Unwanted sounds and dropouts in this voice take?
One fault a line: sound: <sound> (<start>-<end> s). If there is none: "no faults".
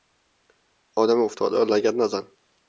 no faults